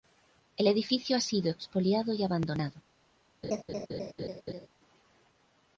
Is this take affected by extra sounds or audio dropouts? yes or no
yes